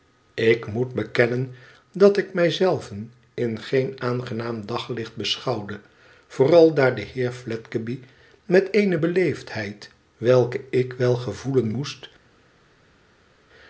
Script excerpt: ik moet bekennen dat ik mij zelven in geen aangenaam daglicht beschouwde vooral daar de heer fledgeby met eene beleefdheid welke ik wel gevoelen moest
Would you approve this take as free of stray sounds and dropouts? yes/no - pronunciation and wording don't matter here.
yes